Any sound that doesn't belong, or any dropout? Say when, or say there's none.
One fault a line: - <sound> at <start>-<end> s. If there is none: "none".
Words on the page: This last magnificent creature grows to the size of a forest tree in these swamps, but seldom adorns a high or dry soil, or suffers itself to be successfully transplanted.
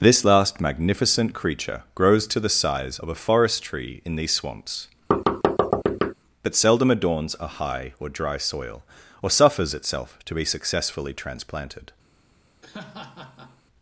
- thud at 5.1-6.1 s
- laugh at 12.6-13.6 s